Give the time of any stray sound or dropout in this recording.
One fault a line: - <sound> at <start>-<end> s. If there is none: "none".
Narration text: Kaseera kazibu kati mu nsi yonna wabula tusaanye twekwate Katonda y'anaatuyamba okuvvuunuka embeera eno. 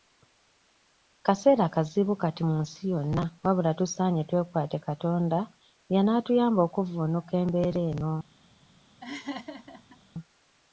- laugh at 9.0-10.0 s